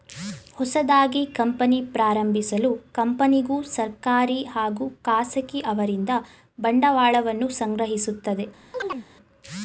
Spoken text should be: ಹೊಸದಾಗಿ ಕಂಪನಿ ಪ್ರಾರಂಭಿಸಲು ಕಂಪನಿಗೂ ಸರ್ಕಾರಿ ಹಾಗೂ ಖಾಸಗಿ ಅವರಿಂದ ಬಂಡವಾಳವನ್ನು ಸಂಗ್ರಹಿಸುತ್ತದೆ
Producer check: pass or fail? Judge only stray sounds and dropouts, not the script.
fail